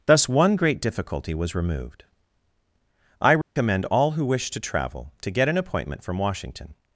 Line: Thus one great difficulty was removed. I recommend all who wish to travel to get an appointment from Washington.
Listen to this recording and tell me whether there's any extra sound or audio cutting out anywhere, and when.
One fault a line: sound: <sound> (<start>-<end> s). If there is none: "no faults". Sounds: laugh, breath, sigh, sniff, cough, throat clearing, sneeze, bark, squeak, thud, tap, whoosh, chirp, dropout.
sound: dropout (3.4-3.6 s)